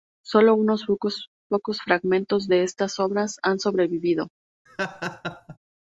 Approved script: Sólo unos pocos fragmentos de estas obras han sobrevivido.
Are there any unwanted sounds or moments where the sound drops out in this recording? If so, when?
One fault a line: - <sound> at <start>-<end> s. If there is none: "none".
- laugh at 4.7-5.6 s